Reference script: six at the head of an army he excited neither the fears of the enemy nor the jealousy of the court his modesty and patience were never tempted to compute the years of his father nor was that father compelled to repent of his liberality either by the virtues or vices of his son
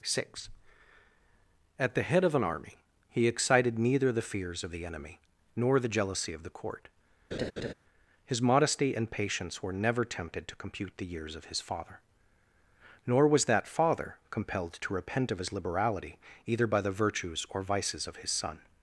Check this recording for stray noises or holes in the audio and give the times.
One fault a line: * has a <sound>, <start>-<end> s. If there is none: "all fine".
* has a laugh, 7.3-7.7 s